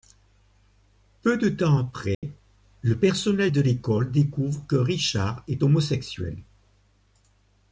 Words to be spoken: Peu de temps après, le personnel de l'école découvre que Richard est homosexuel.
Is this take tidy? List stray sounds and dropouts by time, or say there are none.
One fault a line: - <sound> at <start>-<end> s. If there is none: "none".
- dropout at 2.1-2.2 s